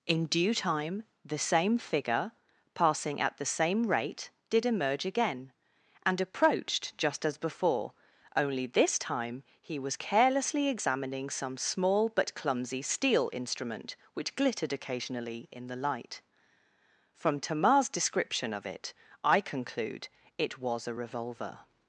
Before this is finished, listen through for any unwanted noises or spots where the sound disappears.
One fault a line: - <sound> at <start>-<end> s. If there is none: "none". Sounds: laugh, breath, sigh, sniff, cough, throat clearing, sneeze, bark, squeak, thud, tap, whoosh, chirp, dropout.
none